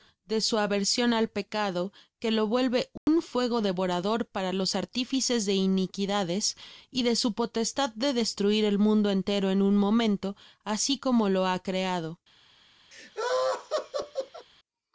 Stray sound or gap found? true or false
true